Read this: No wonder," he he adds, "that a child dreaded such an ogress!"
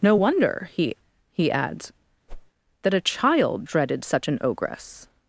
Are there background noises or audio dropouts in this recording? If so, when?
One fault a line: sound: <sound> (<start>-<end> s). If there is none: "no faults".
sound: whoosh (2.3-2.5 s)